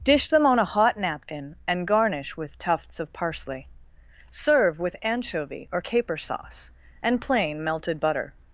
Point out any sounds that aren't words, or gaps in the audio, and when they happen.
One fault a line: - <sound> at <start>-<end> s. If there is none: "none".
none